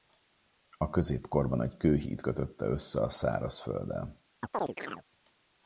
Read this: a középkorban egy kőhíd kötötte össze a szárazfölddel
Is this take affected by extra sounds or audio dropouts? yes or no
yes